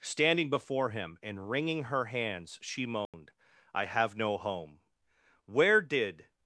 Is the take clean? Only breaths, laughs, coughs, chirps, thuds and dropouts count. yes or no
no